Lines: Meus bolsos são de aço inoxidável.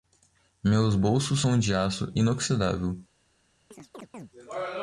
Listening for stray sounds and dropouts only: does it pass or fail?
fail